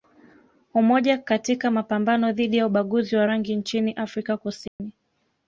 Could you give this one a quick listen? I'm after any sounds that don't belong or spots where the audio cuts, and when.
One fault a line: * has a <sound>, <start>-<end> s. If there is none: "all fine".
* has a dropout, 4.7-4.8 s